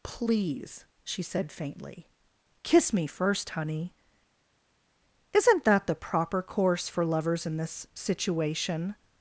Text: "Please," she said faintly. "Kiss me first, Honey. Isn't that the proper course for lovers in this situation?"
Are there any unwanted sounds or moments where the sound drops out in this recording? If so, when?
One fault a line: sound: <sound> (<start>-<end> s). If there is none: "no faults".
no faults